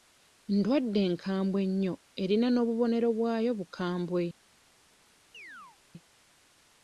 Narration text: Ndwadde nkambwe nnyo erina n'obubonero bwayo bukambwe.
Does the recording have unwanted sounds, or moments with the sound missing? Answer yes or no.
yes